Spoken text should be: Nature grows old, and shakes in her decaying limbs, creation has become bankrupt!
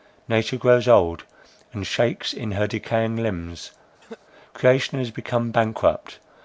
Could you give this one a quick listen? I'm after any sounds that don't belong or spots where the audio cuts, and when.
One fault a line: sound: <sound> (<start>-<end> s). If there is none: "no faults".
sound: cough (4.0-4.2 s)